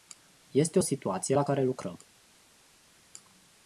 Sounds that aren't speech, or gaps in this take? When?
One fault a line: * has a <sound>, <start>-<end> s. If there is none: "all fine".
all fine